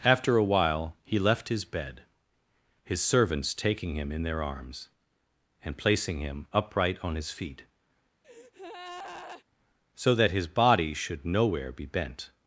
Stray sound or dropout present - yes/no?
yes